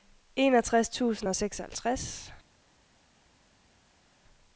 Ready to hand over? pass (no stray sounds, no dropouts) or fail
pass